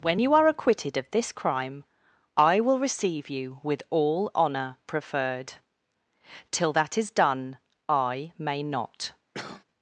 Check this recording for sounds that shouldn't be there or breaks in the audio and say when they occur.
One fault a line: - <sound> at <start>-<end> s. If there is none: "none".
- cough at 9.3-9.6 s